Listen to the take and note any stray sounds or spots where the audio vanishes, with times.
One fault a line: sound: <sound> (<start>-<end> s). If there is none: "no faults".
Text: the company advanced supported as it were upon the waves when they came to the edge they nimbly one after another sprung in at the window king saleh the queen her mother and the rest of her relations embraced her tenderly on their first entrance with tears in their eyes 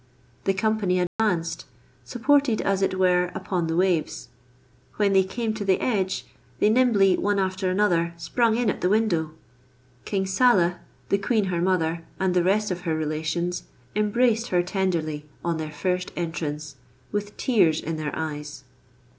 sound: dropout (1.1-1.2 s)